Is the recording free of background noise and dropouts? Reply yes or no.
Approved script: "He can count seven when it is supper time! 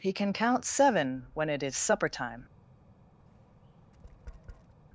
no